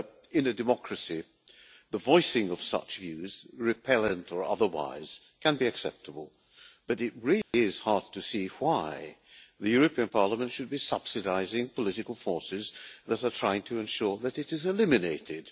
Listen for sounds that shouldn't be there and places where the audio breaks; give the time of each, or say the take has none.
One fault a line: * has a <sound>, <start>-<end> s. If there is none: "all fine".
* has a dropout, 7.4-7.5 s